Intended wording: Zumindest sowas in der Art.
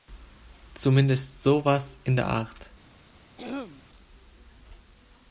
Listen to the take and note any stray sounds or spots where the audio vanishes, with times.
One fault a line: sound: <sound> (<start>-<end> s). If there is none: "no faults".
sound: throat clearing (3.4-3.8 s)